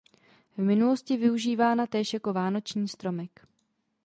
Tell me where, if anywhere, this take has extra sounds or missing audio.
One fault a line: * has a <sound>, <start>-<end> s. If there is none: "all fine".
all fine